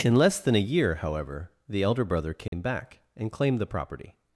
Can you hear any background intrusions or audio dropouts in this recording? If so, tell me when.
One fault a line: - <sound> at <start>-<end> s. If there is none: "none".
- dropout at 2.5-2.5 s